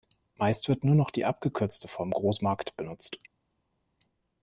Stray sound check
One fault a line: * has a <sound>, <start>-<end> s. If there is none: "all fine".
all fine